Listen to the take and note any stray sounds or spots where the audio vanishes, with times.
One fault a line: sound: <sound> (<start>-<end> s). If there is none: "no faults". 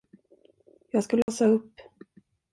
sound: dropout (1.2-1.3 s)